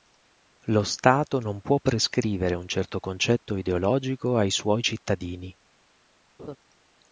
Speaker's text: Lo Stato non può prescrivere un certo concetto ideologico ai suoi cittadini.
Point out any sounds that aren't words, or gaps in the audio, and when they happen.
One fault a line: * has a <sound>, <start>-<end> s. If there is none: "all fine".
* has a laugh, 6.4-6.6 s